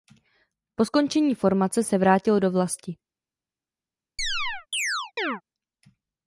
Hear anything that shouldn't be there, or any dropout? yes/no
yes